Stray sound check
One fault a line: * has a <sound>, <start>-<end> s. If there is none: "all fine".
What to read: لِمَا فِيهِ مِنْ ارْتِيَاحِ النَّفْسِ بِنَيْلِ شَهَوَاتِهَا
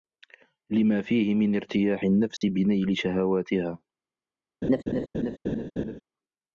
* has a dropout, 2.4-2.4 s
* has a laugh, 4.6-6.0 s